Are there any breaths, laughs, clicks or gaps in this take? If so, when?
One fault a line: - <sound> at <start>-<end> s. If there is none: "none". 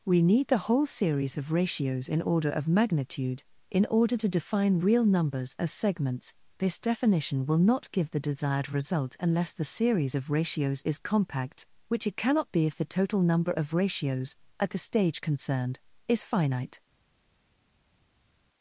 none